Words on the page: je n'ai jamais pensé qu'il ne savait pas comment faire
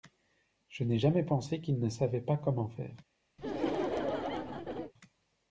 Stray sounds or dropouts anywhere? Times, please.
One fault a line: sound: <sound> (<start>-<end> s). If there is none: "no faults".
sound: laugh (3.4-4.9 s)